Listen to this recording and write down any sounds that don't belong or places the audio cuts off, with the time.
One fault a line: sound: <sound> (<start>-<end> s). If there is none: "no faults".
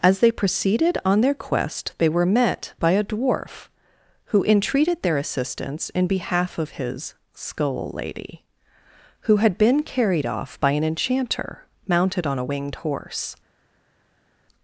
no faults